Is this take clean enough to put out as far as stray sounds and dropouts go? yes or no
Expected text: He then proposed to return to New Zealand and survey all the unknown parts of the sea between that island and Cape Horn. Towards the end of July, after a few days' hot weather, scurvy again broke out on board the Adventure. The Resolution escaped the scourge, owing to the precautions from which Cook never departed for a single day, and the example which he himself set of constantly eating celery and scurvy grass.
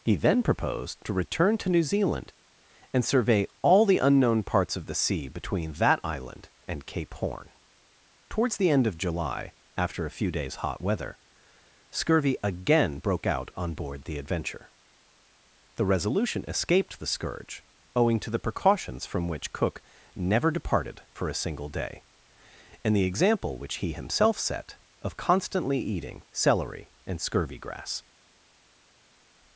yes